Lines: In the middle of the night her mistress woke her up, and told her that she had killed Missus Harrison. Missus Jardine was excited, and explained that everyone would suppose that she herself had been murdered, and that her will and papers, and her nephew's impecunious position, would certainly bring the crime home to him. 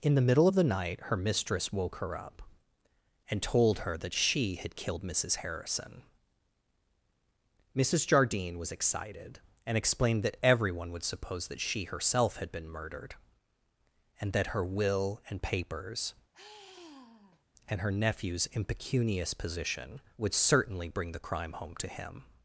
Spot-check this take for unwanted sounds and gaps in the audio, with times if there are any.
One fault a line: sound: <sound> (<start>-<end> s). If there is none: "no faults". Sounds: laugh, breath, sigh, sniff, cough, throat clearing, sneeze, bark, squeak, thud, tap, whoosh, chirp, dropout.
sound: sigh (16.3-17.4 s)